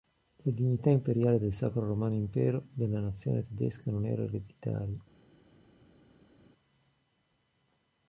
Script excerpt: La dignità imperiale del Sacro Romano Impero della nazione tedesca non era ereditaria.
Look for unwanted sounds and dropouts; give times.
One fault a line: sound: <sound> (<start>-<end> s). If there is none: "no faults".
no faults